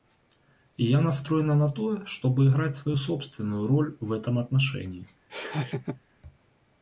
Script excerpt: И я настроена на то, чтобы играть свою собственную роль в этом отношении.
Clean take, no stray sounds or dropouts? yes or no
no